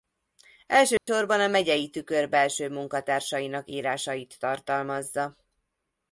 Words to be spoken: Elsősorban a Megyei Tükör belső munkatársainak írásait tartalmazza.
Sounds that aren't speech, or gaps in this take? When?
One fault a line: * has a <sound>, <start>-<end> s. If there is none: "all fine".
* has a dropout, 1.0-1.1 s